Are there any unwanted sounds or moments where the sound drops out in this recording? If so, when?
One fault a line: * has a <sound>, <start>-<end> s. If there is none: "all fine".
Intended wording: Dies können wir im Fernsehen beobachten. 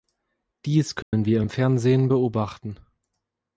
* has a dropout, 1.0-1.1 s